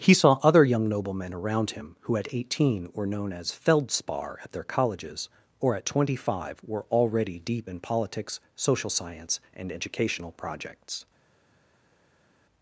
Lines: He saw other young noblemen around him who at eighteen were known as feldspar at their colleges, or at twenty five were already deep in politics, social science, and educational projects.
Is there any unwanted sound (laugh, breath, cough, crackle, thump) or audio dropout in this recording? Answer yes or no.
no